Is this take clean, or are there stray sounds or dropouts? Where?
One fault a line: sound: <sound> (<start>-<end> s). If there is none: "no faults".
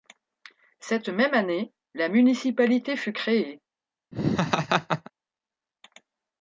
sound: laugh (4.1-5.1 s)